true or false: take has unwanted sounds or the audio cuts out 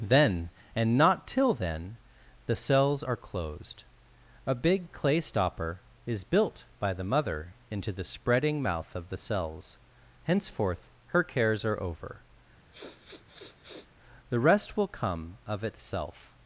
true